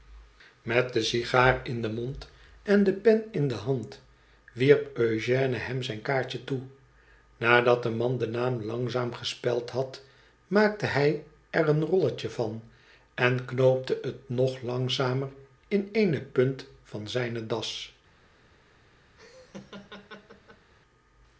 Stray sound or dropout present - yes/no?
yes